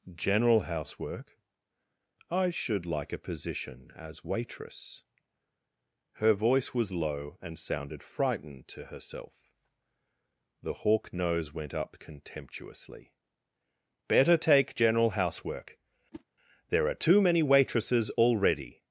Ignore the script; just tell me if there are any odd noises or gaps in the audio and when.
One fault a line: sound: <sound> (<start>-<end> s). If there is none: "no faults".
sound: whoosh (16.1-16.2 s)